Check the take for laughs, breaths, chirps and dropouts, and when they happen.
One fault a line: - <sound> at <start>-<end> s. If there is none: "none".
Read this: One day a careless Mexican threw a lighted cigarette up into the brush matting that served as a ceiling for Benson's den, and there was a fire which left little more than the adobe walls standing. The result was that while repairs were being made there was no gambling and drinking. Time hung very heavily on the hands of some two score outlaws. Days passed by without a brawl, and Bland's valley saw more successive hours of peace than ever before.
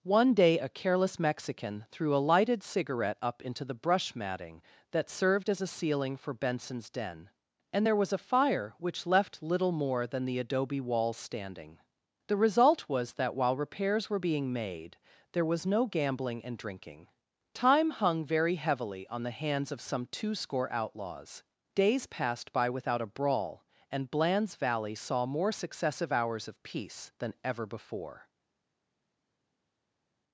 none